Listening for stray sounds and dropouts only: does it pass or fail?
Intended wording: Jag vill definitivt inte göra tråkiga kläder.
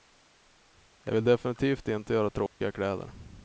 fail